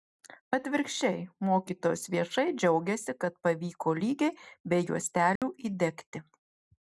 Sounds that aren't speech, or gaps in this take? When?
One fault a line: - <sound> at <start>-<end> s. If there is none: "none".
- dropout at 5.4-5.4 s